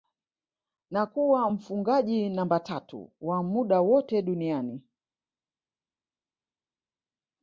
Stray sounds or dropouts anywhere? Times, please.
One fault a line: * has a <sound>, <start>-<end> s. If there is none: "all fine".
all fine